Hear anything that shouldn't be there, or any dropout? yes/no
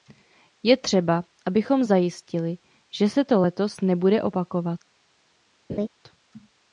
yes